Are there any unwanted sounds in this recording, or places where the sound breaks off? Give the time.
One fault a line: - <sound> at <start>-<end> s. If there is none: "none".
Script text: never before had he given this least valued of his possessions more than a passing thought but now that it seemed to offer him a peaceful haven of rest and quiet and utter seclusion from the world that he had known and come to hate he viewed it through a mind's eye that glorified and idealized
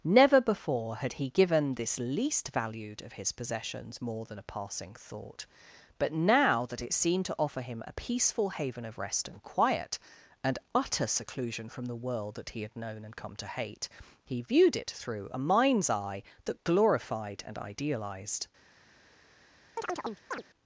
- chirp at 19.8-20.4 s